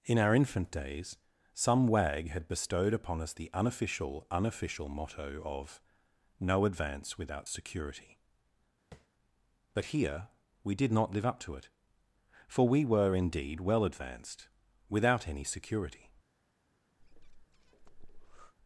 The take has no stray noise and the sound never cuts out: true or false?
false